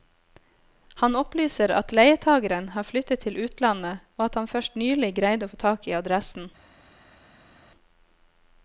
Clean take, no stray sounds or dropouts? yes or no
yes